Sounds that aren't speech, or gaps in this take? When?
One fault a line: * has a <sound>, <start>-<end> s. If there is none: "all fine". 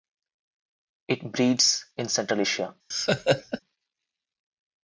* has a laugh, 2.9-3.6 s